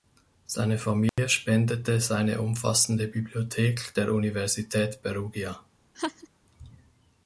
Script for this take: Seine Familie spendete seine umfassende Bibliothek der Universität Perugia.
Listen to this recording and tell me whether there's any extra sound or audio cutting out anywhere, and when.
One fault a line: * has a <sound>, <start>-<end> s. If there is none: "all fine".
* has a dropout, 1.1-1.2 s
* has a laugh, 5.9-6.3 s